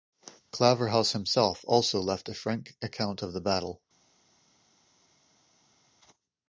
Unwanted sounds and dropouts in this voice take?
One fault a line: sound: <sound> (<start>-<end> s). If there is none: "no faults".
no faults